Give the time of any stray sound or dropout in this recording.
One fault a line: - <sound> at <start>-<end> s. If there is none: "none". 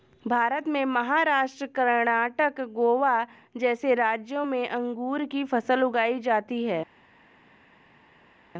none